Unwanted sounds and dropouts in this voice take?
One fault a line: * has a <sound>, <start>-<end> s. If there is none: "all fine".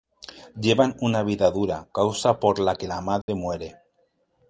* has a dropout, 3.2-3.3 s